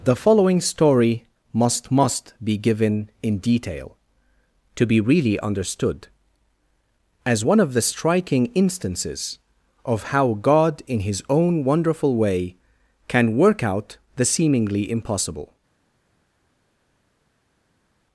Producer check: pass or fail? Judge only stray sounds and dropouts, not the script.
pass